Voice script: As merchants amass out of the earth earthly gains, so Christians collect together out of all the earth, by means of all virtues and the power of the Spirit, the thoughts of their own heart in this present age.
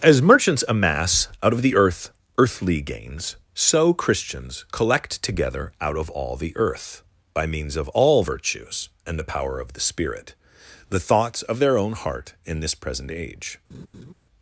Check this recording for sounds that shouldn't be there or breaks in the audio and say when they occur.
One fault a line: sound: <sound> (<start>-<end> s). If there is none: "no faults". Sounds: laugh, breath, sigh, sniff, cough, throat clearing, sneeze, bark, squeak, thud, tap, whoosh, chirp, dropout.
sound: laugh (13.7-14.1 s)